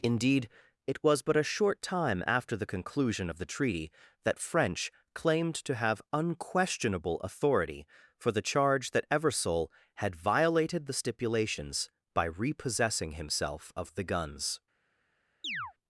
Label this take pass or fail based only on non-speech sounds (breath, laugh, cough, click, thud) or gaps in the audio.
fail